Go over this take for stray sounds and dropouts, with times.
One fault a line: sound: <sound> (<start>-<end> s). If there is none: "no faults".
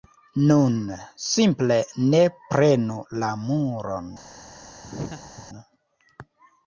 sound: laugh (4.8-5.5 s)